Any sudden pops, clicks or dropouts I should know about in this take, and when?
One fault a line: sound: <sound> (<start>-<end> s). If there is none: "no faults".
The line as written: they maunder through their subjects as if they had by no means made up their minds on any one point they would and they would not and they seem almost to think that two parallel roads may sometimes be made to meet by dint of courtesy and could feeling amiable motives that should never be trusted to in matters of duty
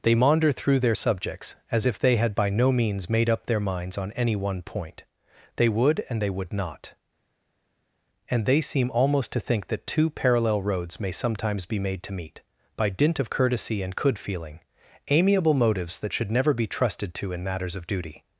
no faults